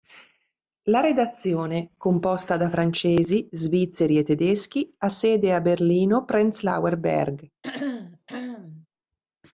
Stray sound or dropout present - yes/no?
yes